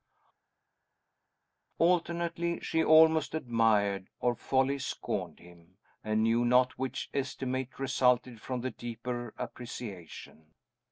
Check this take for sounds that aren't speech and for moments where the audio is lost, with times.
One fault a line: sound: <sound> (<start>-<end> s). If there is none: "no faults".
no faults